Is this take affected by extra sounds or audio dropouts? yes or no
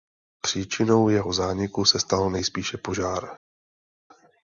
no